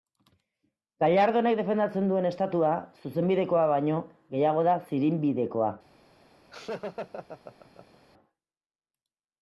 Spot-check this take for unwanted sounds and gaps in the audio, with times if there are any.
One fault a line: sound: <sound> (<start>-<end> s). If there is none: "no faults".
sound: laugh (6.5-8.0 s)